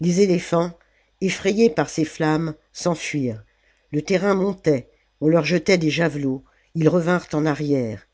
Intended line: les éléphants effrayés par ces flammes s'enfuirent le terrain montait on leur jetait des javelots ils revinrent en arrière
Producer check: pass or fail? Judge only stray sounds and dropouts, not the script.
pass